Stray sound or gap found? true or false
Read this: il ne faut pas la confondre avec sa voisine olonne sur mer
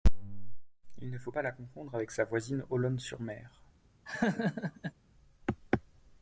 true